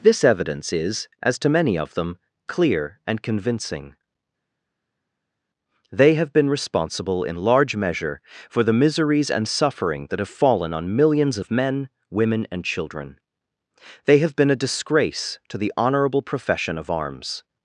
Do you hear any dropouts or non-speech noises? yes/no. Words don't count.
no